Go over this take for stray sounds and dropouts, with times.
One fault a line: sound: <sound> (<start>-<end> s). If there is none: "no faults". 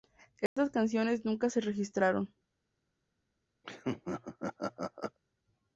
sound: dropout (0.5-0.6 s)
sound: laugh (3.6-5.2 s)